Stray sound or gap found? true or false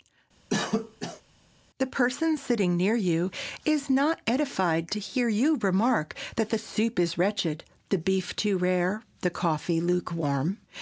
true